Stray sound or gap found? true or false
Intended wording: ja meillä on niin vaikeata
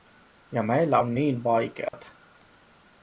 true